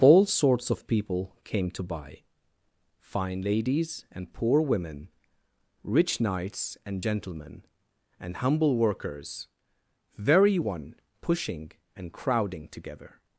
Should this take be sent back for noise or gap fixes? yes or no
no